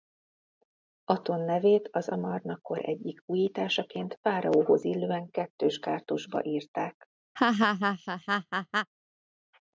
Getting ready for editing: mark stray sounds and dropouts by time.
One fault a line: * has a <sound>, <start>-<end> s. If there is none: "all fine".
* has a laugh, 7.4-8.9 s